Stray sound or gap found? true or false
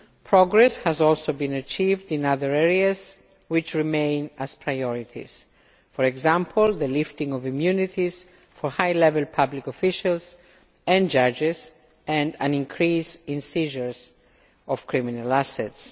false